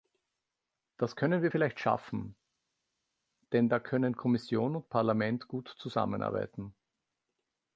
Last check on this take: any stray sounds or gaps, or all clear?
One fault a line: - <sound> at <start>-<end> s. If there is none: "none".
none